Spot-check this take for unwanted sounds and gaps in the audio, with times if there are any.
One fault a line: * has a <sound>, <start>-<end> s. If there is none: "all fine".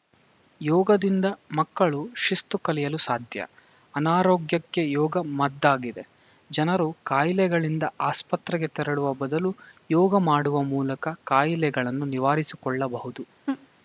* has a laugh, 13.5-13.7 s